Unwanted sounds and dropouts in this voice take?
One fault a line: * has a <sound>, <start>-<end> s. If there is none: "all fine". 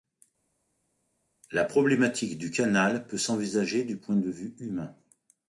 all fine